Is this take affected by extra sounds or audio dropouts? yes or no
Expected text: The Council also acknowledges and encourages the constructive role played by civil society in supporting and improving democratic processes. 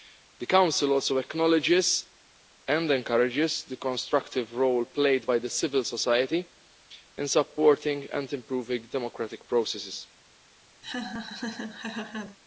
yes